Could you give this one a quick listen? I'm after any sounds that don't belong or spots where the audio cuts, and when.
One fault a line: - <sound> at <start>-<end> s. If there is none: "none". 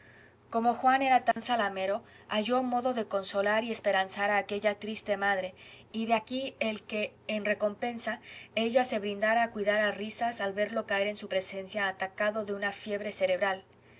- dropout at 1.3-1.4 s